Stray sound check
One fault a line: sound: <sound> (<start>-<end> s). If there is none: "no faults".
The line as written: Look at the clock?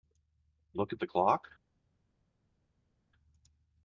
no faults